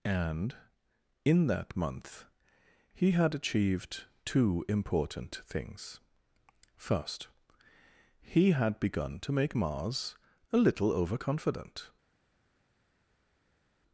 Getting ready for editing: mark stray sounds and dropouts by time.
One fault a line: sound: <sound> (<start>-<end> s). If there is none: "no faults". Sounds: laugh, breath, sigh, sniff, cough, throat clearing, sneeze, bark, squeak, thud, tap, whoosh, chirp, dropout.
no faults